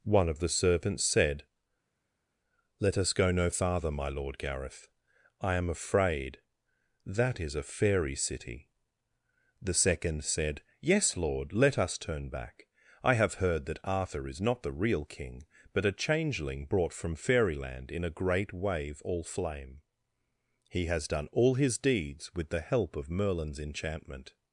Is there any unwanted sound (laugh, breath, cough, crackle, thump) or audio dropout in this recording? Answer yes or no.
no